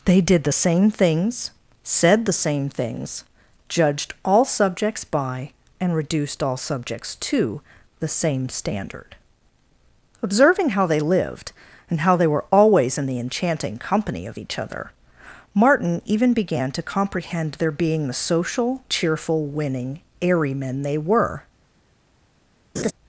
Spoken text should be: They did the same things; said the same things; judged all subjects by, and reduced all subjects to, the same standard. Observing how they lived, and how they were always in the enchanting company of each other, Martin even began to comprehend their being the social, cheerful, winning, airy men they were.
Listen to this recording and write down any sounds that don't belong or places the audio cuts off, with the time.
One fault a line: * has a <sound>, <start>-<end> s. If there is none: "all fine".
* has a laugh, 22.8-22.9 s